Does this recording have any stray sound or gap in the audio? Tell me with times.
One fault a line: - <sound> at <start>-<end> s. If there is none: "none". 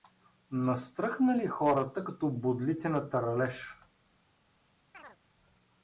- chirp at 4.9-5.2 s